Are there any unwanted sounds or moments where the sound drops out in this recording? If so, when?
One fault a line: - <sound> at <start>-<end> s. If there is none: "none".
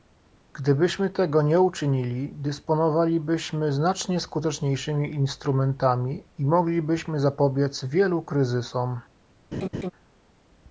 - laugh at 9.5-9.9 s